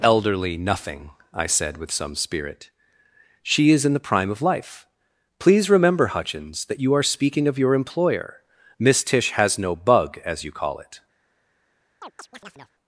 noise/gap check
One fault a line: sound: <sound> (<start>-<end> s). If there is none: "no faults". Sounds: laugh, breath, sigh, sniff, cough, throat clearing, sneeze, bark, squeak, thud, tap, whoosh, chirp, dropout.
sound: chirp (12.0-12.7 s)